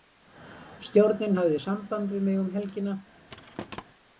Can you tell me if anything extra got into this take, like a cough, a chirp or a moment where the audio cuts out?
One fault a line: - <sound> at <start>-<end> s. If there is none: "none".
- thud at 3.3-3.8 s